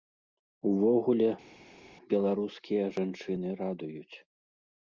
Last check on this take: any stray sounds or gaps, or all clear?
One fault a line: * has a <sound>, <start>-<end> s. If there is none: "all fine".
all fine